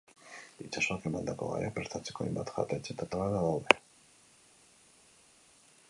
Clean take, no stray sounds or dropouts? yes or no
yes